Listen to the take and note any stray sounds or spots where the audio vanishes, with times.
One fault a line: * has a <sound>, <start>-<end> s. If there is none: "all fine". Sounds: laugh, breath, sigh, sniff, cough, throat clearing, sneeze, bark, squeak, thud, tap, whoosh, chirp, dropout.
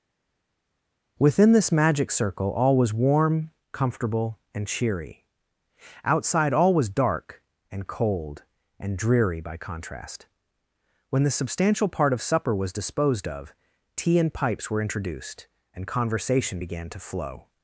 all fine